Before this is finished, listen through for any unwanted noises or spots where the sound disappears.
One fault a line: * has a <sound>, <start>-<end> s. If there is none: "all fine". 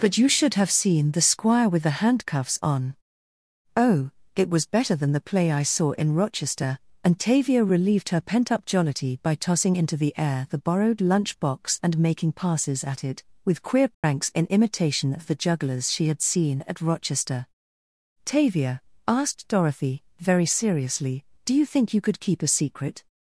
* has a dropout, 13.9-14.0 s